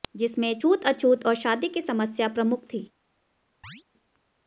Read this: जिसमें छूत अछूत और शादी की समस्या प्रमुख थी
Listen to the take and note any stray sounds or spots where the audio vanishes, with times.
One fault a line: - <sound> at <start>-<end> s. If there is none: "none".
- chirp at 3.6-3.8 s